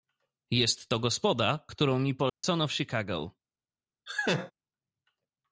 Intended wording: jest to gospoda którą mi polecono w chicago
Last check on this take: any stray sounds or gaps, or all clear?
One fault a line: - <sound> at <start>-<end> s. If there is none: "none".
- dropout at 2.3-2.4 s
- laugh at 4.1-4.5 s